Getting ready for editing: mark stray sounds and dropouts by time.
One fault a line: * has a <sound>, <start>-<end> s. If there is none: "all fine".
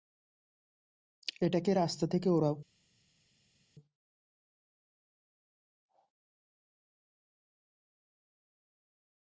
all fine